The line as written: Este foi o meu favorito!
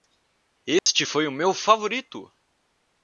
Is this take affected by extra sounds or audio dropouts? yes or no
yes